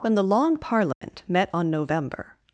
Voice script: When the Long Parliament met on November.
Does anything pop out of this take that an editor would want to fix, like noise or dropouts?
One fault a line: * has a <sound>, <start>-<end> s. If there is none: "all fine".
* has a dropout, 0.9-1.0 s